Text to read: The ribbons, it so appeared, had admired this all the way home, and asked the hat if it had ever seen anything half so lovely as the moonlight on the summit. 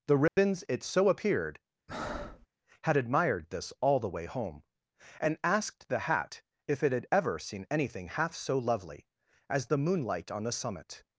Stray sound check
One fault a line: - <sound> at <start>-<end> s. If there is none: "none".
- dropout at 0.3-0.4 s
- breath at 1.9-2.5 s